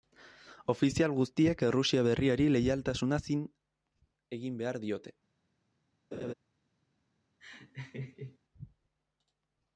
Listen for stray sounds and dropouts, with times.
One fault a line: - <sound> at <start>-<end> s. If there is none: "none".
- laugh at 6.1-6.3 s
- laugh at 7.4-8.4 s